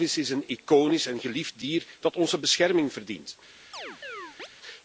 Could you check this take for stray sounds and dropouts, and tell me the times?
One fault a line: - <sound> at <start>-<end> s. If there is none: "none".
- chirp at 3.7-4.5 s